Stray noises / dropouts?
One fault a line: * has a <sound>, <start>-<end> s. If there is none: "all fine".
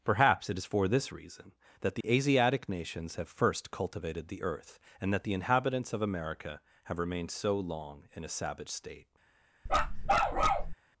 * has a dropout, 2.0-2.0 s
* has a bark, 9.7-10.7 s